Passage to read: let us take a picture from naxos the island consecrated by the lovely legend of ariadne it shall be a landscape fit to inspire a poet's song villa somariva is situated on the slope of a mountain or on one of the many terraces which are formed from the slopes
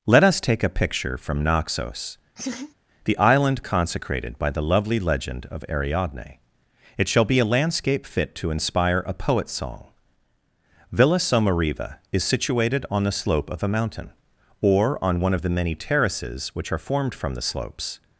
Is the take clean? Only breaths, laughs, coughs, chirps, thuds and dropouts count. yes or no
no